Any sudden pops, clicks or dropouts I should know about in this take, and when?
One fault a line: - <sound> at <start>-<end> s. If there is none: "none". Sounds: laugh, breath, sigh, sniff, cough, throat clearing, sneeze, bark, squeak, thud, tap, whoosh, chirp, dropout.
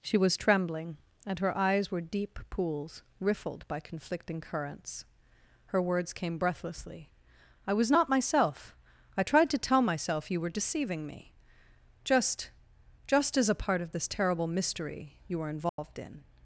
- dropout at 15.7-15.8 s